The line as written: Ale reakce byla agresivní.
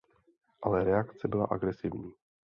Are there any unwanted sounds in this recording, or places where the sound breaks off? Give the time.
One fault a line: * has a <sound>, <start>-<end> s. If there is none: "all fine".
all fine